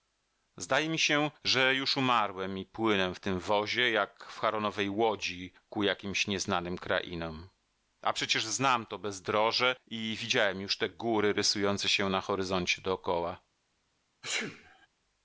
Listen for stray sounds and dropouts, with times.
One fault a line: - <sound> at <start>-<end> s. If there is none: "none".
- sneeze at 14.2-14.9 s